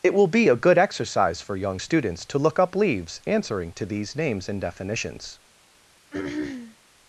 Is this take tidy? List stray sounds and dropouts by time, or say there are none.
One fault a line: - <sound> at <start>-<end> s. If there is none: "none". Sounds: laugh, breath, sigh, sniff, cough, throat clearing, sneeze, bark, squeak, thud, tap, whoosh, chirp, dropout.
- throat clearing at 6.1-6.8 s